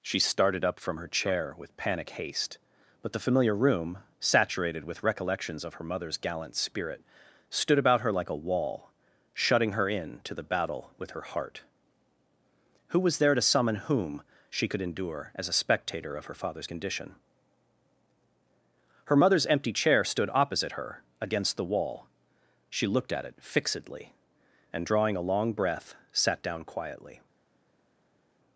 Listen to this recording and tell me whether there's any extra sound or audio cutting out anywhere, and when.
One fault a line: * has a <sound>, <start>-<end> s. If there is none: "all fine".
all fine